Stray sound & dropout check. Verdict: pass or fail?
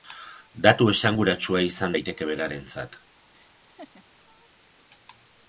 fail